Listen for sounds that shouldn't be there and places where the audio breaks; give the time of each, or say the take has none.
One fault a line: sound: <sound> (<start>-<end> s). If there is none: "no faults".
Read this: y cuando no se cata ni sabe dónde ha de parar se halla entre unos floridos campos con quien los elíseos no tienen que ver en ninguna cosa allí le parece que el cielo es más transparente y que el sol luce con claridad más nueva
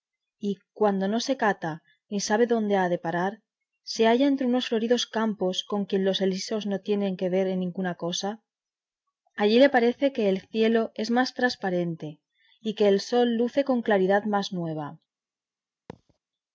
sound: thud (15.9-16.2 s)